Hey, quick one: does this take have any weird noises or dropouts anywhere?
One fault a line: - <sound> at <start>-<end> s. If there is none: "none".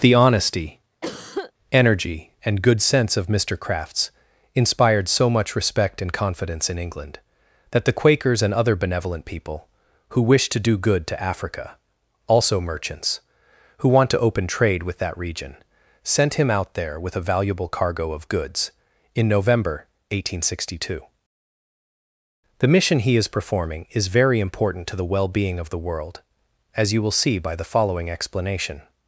- cough at 1.0-1.5 s